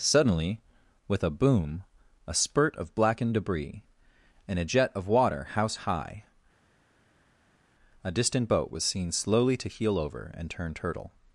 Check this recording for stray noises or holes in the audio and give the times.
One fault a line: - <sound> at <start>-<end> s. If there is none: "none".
none